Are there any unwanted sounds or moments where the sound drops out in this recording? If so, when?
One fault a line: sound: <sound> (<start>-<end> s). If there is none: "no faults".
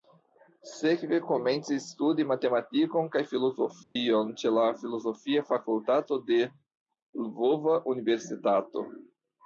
sound: dropout (3.8-4.0 s)